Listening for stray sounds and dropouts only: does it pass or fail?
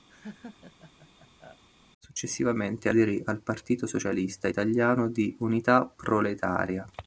fail